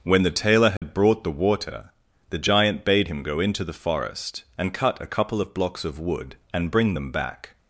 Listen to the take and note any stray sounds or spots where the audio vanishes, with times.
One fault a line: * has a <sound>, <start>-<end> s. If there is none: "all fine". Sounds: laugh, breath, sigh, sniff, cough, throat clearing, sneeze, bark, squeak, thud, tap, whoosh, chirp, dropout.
* has a dropout, 0.8-0.8 s